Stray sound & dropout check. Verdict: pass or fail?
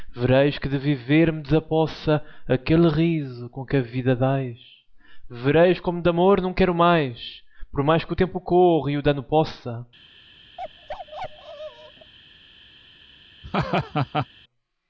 fail